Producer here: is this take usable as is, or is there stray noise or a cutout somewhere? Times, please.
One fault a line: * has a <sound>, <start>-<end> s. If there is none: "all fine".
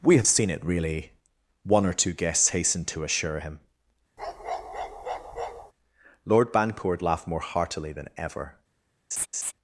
* has a bark, 4.2-5.7 s
* has a laugh, 9.1-9.5 s